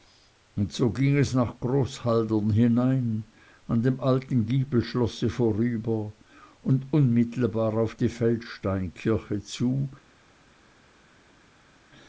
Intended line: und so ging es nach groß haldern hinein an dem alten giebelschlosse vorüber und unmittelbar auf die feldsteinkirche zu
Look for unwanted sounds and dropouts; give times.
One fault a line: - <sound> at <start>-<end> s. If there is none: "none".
none